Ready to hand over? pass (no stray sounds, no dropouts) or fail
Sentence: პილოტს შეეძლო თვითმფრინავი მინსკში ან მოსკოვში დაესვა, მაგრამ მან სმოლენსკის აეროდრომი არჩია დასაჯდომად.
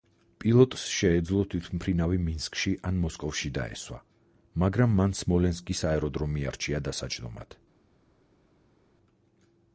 pass